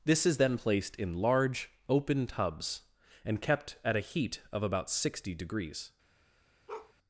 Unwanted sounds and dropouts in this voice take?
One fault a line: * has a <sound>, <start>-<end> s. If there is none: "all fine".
* has a bark, 6.7-6.9 s